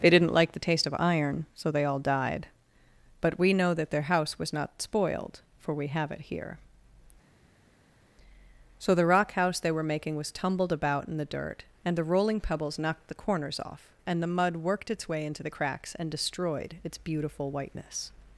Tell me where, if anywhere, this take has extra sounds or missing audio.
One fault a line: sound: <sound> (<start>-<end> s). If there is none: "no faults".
no faults